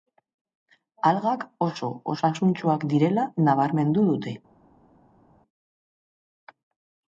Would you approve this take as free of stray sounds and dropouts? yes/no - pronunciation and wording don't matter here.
yes